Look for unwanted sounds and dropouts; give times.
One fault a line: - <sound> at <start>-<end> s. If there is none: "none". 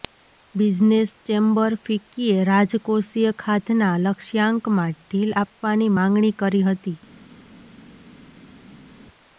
none